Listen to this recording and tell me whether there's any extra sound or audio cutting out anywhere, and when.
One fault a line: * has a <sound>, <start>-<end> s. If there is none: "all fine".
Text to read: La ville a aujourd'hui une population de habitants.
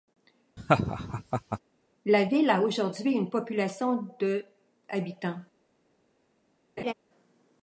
* has a laugh, 0.6-1.6 s
* has a laugh, 6.8-6.9 s